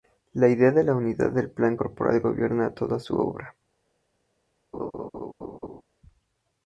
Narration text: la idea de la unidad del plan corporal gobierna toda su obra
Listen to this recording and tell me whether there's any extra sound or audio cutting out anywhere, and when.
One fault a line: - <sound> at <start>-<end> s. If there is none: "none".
- laugh at 4.7-5.8 s